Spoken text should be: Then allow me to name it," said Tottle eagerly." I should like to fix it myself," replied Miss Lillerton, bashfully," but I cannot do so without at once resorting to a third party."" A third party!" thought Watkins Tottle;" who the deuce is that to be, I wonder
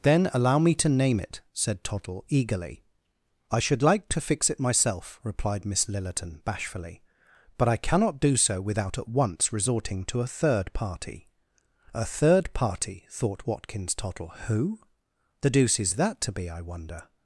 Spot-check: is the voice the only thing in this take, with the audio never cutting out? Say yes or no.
yes